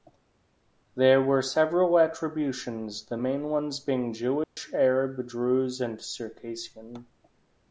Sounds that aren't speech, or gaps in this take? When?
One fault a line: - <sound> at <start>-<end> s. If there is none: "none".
- dropout at 4.4-4.6 s